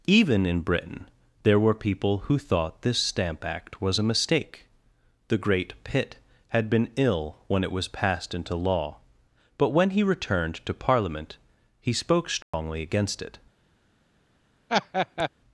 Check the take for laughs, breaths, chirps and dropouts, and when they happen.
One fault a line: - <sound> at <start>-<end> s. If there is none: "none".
- dropout at 12.4-12.5 s
- laugh at 14.7-15.3 s